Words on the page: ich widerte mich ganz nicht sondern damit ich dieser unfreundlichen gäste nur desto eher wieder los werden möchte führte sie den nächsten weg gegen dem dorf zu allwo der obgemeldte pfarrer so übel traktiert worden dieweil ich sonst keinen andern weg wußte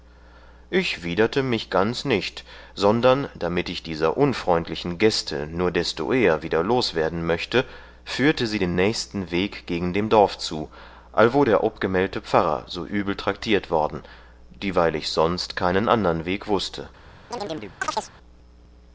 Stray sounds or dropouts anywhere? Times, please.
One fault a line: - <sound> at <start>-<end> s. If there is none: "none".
- chirp at 17.3-18.1 s